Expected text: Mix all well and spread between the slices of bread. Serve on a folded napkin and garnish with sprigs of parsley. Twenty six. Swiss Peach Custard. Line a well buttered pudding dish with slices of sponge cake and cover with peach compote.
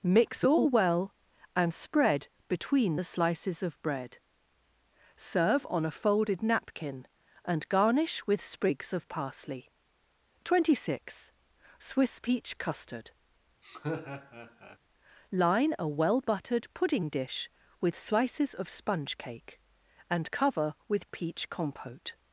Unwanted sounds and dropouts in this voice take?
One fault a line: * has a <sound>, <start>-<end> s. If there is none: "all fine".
* has a laugh, 13.6-14.8 s